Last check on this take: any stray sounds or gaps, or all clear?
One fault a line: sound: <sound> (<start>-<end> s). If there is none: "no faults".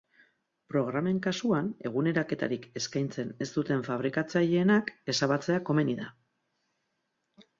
no faults